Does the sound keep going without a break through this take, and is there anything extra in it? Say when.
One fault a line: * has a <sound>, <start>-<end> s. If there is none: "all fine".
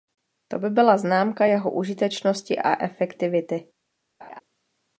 * has a laugh, 4.2-4.4 s